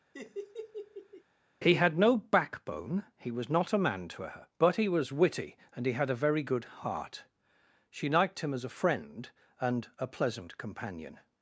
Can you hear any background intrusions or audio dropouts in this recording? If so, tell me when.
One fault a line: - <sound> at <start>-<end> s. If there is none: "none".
- laugh at 0.1-1.2 s